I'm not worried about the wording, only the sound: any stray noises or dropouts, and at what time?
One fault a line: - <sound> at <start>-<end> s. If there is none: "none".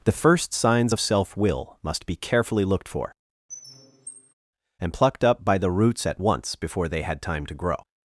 - squeak at 3.5-4.3 s